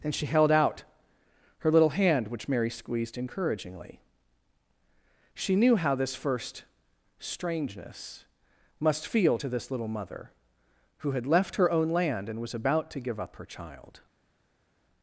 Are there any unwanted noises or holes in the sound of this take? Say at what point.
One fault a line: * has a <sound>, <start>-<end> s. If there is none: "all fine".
all fine